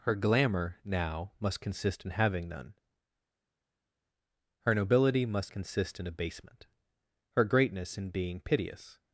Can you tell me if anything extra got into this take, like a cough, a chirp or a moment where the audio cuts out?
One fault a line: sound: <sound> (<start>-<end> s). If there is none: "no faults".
no faults